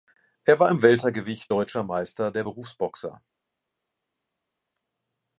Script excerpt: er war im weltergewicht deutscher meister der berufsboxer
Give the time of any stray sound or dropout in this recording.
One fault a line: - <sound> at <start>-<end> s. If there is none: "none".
none